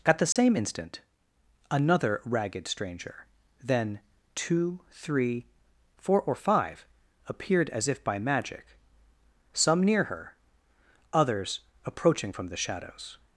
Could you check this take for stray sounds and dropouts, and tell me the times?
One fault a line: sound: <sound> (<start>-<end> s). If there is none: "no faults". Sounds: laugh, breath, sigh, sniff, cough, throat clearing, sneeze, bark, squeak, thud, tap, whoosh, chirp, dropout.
sound: dropout (0.3-0.4 s)